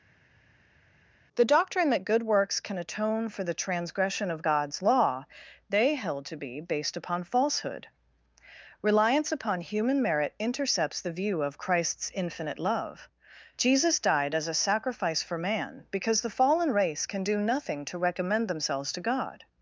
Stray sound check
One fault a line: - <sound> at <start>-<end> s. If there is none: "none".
none